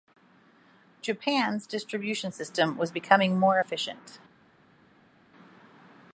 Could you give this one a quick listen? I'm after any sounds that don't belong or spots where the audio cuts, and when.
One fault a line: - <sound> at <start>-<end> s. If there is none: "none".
none